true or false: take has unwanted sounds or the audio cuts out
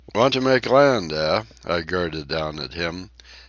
false